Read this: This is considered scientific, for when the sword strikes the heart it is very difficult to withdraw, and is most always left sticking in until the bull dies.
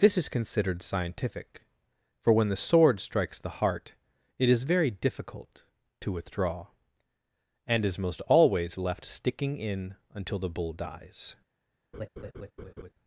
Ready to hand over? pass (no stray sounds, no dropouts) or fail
fail